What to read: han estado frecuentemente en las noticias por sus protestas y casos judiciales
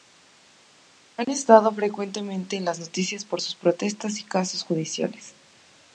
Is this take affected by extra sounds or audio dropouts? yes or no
no